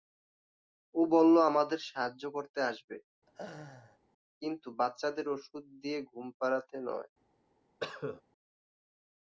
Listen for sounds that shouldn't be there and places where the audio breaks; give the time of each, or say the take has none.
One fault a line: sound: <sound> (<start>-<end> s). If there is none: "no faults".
sound: laugh (3.3-4.0 s)
sound: cough (7.8-8.2 s)